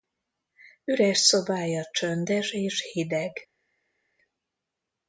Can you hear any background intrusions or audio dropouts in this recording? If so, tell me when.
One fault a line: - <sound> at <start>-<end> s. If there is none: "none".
none